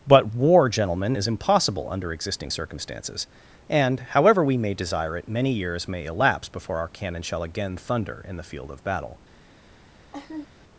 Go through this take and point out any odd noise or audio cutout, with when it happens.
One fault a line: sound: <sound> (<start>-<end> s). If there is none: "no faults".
sound: laugh (10.1-10.5 s)